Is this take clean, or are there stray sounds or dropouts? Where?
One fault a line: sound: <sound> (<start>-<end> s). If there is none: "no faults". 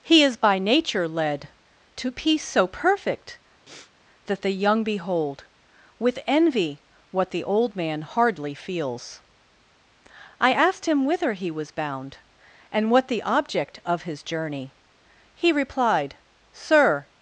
sound: sniff (3.7-3.9 s)